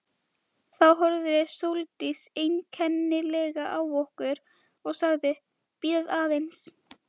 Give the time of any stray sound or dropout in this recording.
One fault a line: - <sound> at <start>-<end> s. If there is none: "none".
none